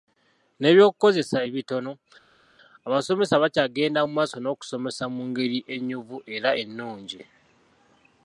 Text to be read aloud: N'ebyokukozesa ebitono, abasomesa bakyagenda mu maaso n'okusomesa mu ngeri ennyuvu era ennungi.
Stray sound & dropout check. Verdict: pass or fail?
pass